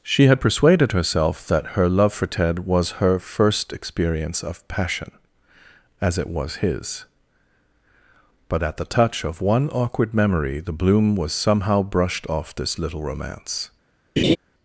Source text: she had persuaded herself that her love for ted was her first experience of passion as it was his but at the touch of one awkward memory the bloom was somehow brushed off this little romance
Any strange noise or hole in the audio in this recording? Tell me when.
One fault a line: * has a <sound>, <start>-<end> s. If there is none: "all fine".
* has a laugh, 14.2-14.4 s